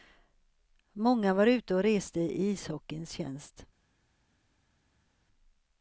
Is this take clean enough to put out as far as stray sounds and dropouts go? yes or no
yes